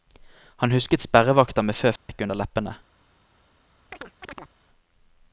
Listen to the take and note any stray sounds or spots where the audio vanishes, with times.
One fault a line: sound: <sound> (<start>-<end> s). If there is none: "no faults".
sound: dropout (2.0-2.1 s)
sound: chirp (3.9-4.5 s)